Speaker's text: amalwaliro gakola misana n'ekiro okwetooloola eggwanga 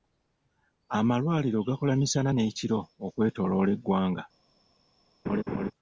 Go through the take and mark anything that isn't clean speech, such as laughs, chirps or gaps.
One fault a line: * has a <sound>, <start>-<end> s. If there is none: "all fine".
* has a laugh, 5.2-5.7 s